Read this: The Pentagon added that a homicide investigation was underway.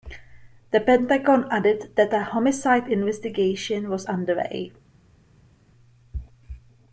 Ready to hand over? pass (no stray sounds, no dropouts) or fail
pass